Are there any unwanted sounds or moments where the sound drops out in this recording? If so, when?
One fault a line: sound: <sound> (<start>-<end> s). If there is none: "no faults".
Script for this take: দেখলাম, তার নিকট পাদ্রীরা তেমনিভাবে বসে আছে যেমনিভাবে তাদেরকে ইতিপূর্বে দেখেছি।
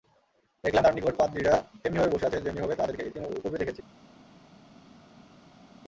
no faults